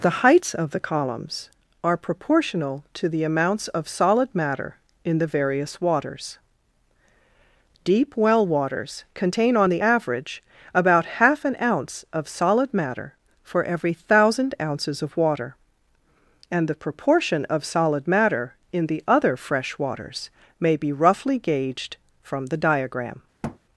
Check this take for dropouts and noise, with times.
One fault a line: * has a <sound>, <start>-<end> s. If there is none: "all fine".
* has a thud, 23.4-23.6 s